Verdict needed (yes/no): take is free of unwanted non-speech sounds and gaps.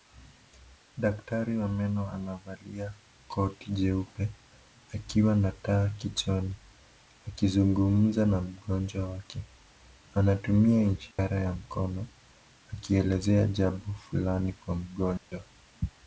no